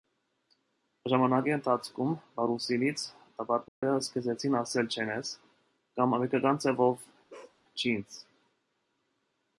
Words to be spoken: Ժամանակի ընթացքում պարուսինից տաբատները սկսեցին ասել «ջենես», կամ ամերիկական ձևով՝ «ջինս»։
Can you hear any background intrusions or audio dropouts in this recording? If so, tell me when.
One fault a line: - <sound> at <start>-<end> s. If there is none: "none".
- dropout at 3.7-3.8 s
- bark at 7.3-7.6 s